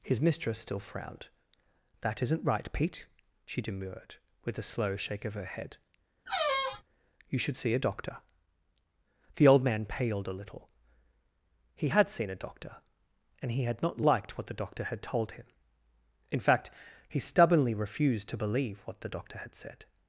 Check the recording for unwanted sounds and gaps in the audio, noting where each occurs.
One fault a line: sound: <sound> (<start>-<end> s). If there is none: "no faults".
sound: squeak (6.3-6.8 s)